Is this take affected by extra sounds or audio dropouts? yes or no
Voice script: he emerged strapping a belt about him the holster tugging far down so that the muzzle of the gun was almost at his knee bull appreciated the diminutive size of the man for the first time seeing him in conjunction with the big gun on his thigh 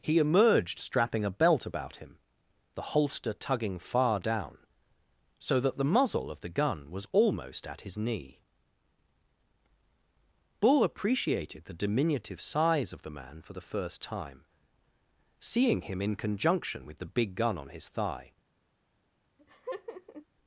yes